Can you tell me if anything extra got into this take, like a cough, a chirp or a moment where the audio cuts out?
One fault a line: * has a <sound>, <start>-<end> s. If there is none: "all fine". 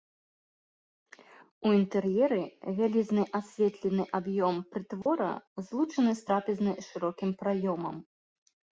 * has a dropout, 5.0-5.1 s